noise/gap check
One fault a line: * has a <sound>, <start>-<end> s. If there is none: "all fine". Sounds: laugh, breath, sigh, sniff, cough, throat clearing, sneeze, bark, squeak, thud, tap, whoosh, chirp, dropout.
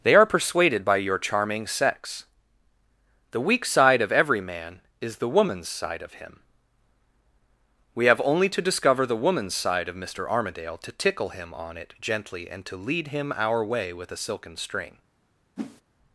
* has a whoosh, 15.6-15.8 s